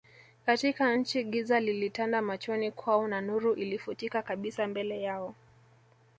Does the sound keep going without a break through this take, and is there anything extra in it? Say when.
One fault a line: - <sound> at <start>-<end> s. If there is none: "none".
none